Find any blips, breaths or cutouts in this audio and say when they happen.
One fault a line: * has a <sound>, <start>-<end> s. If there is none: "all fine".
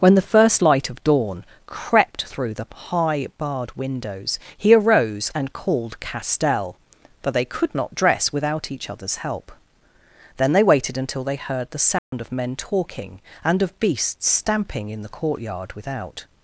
* has a dropout, 12.0-12.1 s